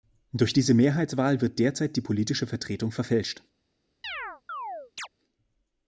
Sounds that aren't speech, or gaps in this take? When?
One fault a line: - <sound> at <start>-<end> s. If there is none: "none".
- chirp at 4.0-5.1 s